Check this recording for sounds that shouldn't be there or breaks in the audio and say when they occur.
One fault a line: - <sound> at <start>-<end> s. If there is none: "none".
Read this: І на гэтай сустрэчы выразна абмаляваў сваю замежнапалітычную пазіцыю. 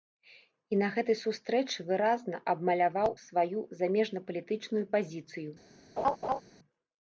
- laugh at 6.0-6.4 s